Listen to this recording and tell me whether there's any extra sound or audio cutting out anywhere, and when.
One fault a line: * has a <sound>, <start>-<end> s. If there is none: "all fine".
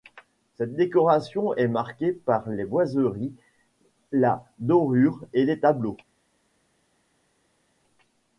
all fine